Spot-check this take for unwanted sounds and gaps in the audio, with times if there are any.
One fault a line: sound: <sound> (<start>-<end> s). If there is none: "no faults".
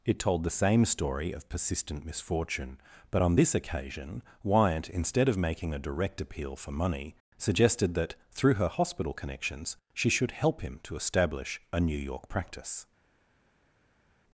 no faults